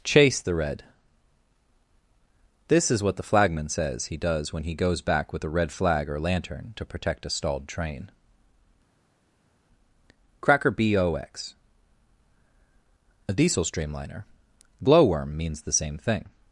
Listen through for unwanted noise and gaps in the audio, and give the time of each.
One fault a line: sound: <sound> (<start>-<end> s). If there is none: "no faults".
no faults